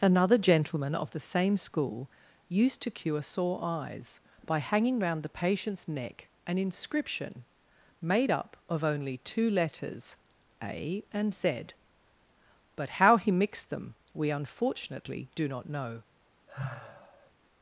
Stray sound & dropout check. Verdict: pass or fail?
fail